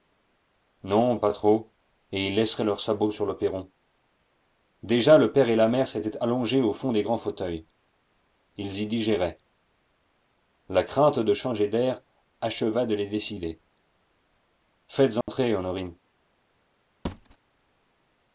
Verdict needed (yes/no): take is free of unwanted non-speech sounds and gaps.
no